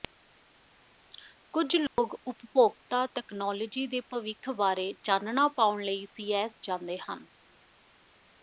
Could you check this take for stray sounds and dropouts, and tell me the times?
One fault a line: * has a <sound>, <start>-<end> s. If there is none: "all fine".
* has a dropout, 1.9-2.0 s